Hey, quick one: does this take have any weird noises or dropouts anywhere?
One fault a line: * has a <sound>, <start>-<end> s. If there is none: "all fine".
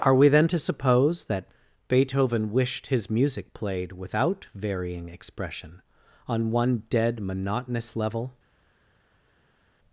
all fine